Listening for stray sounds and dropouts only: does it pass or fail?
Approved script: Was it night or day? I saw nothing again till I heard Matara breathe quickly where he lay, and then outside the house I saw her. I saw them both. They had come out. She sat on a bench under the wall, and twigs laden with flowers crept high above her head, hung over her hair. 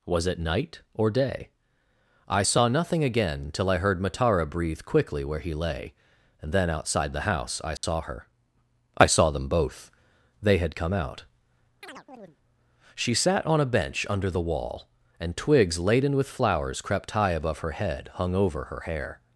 fail